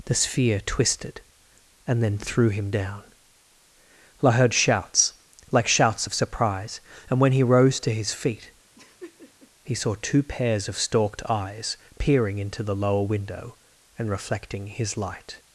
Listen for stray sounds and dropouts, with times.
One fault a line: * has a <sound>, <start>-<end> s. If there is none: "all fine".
* has a laugh, 8.8-9.5 s